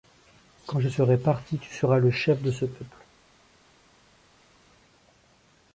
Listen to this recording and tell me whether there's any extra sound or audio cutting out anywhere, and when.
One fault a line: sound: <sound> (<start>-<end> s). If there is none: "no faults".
no faults